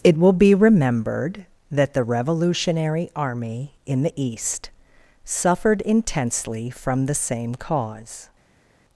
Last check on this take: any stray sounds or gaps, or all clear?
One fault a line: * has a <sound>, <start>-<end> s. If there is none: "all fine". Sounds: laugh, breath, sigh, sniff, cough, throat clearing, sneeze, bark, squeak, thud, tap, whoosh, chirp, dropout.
all fine